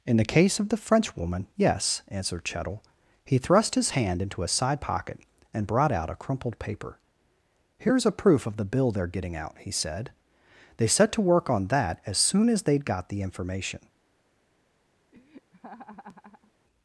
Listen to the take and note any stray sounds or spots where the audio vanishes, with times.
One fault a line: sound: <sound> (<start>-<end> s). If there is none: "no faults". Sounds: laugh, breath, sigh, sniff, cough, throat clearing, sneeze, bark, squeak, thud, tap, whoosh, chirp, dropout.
sound: laugh (15.1-16.5 s)